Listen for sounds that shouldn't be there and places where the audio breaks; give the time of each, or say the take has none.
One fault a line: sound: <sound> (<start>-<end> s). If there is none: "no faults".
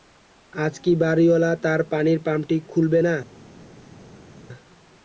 no faults